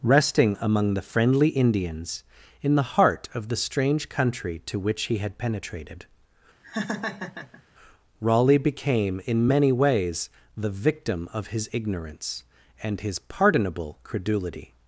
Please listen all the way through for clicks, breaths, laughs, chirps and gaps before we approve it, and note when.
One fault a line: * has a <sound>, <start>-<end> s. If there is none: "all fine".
* has a laugh, 6.6-7.6 s